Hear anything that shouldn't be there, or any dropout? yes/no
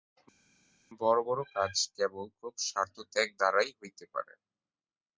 no